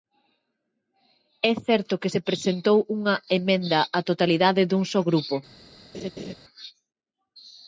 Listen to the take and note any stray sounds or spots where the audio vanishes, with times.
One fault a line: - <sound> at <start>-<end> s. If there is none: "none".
- laugh at 5.9-6.3 s